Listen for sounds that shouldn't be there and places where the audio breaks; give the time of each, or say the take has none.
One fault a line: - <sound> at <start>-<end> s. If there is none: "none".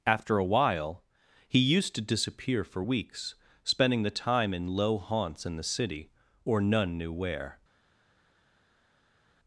none